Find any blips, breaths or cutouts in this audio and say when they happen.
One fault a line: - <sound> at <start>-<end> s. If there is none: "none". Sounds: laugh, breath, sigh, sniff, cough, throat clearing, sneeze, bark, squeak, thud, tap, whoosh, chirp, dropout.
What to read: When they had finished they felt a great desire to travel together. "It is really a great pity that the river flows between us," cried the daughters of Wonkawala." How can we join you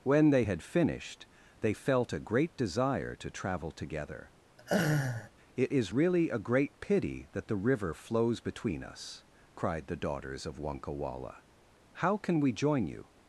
- laugh at 4.6-5.3 s